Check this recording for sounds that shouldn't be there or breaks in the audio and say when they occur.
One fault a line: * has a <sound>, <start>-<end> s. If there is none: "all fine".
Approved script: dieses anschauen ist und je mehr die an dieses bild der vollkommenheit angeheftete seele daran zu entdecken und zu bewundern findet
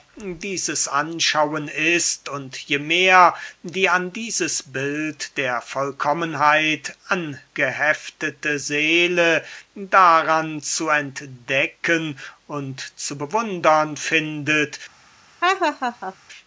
* has a laugh, 15.4-16.2 s